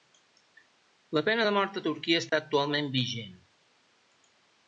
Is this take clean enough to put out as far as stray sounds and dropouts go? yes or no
no